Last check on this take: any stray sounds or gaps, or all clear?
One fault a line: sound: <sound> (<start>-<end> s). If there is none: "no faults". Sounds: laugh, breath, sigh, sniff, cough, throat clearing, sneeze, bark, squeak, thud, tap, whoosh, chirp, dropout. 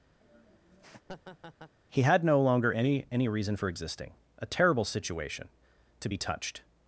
sound: laugh (0.2-1.7 s)